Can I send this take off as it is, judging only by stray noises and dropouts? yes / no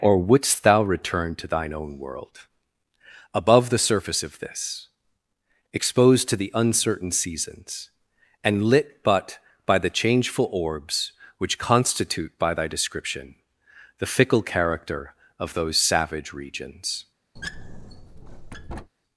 no